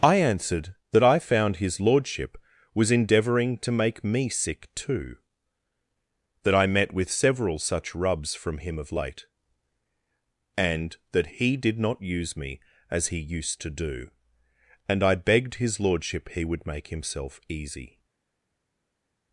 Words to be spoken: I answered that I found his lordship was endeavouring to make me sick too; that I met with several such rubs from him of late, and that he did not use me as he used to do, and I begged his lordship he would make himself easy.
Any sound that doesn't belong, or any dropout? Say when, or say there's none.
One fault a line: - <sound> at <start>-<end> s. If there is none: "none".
none